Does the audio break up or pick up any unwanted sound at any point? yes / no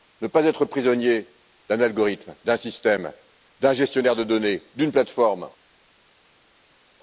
no